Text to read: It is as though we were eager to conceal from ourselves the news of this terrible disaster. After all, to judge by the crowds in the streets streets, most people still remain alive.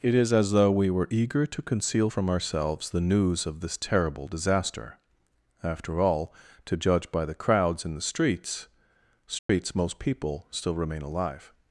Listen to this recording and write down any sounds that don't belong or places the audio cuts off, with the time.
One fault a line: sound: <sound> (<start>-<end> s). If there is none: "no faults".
sound: dropout (9.4-9.5 s)